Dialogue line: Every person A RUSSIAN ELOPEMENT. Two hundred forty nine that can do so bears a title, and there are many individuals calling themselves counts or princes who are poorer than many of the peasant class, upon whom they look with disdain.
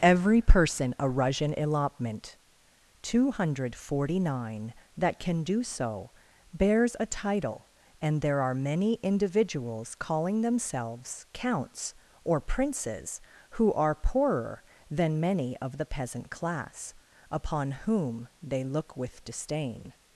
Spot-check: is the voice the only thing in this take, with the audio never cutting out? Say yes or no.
yes